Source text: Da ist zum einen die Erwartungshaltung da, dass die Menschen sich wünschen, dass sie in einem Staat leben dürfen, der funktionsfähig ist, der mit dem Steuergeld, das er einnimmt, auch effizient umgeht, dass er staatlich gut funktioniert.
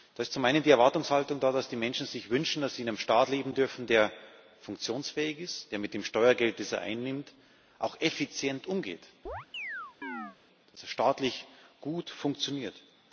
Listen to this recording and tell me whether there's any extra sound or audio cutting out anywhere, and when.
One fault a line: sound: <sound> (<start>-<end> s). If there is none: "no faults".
sound: chirp (9.3-10.4 s)